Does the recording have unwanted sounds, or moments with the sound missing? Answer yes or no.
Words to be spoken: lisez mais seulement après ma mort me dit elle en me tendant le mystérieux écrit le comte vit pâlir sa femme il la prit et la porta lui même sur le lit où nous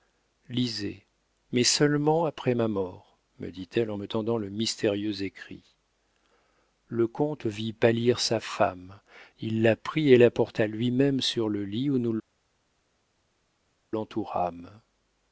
no